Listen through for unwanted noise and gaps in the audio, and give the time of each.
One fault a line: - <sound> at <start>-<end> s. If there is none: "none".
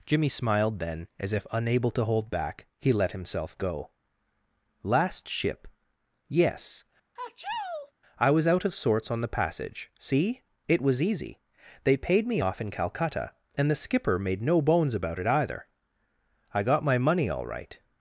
- sneeze at 7.2-7.9 s